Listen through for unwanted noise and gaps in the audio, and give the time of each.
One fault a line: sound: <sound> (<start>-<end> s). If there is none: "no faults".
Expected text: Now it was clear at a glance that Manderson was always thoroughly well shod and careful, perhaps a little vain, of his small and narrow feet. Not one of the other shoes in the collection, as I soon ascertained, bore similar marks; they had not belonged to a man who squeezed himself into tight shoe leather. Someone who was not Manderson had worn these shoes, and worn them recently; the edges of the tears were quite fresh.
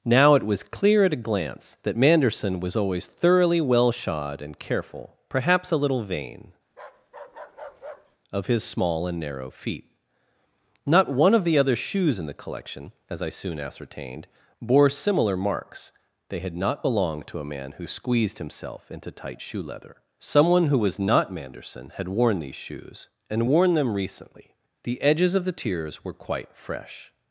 sound: bark (6.7-8.2 s)